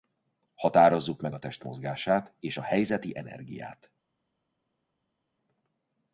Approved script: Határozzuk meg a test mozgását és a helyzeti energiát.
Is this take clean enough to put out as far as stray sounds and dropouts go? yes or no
yes